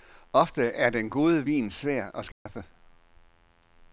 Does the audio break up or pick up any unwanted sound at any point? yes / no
yes